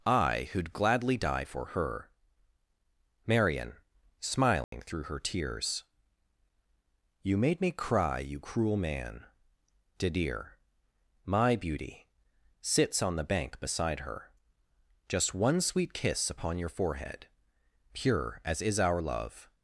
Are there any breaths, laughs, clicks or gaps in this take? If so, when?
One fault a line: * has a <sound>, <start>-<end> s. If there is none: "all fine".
* has a dropout, 4.6-4.7 s